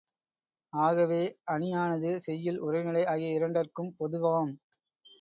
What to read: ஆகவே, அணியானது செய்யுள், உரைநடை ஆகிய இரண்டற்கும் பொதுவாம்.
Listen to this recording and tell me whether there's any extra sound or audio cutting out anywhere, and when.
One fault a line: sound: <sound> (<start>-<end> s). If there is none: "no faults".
no faults